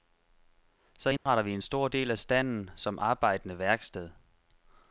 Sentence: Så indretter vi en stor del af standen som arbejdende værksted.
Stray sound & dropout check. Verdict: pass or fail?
fail